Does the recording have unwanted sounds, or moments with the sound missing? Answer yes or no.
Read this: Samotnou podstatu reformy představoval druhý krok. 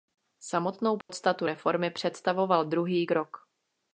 yes